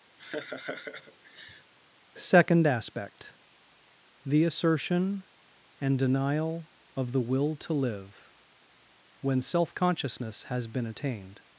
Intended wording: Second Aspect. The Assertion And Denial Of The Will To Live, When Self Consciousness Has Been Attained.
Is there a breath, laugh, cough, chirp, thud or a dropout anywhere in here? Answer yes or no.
yes